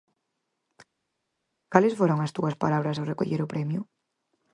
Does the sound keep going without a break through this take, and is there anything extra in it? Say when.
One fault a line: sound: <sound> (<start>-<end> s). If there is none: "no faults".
no faults